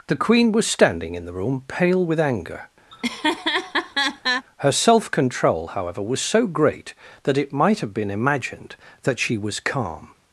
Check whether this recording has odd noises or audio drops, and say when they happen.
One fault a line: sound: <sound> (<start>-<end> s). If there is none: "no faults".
sound: laugh (2.9-4.5 s)